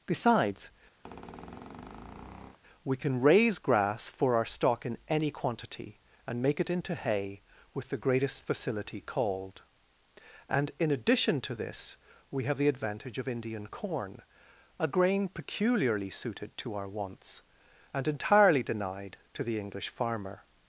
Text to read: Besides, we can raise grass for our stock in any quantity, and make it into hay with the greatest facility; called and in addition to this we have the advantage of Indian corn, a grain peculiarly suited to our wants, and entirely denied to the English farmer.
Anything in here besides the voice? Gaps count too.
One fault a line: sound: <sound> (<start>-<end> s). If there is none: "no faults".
sound: squeak (1.0-2.6 s)